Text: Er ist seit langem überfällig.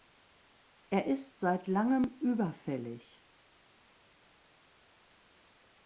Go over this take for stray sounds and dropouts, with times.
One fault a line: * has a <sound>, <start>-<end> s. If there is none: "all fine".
all fine